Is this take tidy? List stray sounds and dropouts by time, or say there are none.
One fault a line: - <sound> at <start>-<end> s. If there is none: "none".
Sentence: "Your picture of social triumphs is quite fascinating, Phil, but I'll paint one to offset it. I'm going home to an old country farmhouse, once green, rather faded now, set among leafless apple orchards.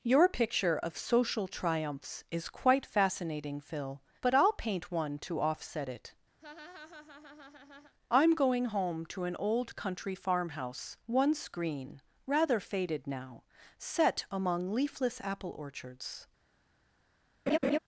- laugh at 6.4-7.9 s
- laugh at 17.5-17.8 s